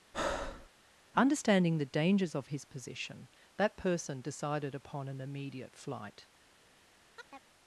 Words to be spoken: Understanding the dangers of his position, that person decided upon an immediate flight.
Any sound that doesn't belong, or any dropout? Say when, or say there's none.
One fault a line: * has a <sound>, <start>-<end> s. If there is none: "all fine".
* has a breath, 0.1-0.7 s
* has a chirp, 7.1-7.5 s